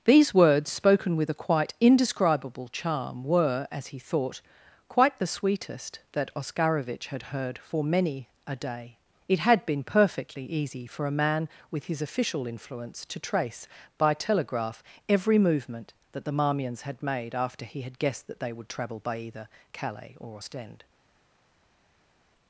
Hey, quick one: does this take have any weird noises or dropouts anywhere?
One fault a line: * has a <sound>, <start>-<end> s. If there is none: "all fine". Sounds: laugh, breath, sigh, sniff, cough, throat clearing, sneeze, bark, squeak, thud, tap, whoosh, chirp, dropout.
all fine